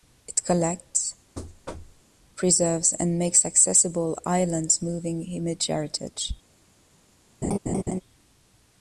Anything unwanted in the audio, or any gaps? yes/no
yes